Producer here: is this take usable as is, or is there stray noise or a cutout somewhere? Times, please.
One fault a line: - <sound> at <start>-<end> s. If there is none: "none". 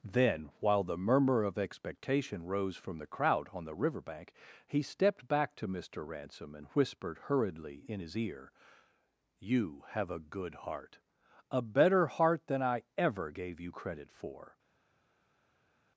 none